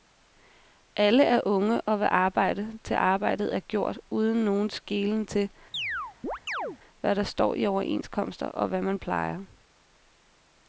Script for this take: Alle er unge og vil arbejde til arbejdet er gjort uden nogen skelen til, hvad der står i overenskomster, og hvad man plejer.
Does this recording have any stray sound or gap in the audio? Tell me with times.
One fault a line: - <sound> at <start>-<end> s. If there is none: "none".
- chirp at 5.7-6.8 s